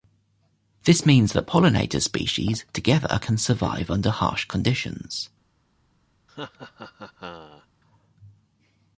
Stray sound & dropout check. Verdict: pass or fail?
fail